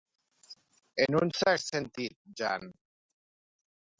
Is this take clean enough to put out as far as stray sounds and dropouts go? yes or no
yes